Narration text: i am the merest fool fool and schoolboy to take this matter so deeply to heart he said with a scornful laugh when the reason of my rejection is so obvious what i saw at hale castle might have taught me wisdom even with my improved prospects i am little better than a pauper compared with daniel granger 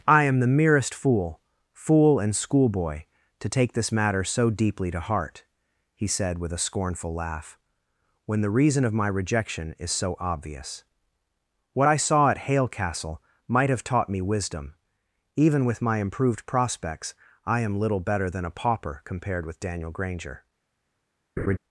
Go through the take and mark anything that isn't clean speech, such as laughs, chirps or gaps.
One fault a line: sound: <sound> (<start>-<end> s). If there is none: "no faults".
sound: laugh (21.4-21.6 s)